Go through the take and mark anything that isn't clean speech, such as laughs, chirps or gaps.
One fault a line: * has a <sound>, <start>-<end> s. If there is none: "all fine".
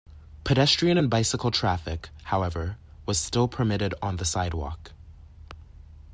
all fine